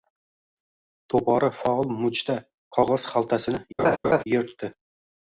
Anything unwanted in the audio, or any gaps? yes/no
yes